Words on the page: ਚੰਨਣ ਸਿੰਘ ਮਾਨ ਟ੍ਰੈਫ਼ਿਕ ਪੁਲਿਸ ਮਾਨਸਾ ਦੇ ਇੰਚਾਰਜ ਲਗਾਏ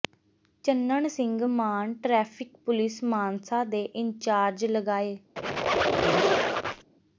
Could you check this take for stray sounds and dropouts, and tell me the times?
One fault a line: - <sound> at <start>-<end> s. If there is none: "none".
- squeak at 5.4-6.9 s